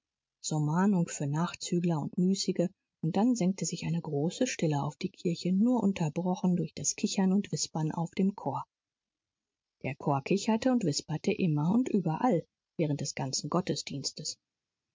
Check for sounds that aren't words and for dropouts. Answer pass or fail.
pass